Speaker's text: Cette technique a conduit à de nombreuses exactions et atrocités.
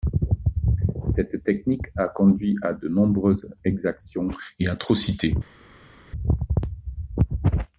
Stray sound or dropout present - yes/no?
no